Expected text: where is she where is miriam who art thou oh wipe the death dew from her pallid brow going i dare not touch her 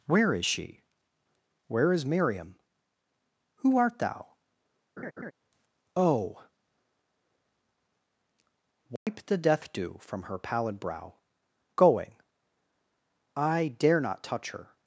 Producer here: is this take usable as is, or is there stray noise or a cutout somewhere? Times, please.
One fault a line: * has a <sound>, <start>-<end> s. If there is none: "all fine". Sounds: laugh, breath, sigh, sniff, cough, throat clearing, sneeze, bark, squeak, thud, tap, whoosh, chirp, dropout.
* has a laugh, 5.0-5.3 s
* has a dropout, 9.0-9.1 s